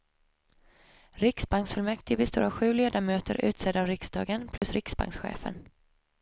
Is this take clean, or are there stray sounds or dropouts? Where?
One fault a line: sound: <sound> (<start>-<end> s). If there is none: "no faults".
sound: dropout (4.6-4.6 s)